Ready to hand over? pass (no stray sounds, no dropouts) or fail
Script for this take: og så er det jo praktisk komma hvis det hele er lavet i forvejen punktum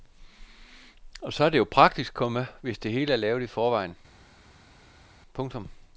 pass